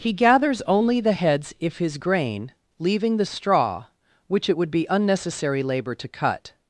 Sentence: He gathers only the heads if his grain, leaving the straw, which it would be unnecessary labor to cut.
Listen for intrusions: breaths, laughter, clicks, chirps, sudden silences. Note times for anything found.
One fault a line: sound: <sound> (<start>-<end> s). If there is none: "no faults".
no faults